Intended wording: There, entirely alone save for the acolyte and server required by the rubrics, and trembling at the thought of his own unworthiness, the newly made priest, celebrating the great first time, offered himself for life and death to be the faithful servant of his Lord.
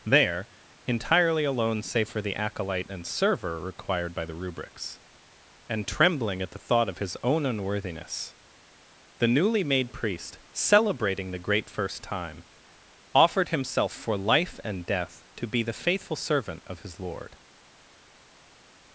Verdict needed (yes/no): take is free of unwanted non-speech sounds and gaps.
yes